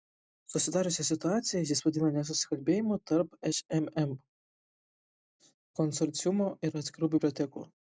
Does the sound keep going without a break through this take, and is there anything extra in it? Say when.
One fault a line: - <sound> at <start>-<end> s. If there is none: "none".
none